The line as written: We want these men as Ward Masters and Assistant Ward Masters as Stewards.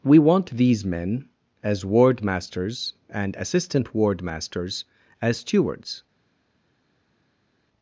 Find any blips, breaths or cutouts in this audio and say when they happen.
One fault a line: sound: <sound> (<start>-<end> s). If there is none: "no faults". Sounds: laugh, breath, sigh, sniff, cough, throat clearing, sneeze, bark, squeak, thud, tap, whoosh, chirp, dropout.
no faults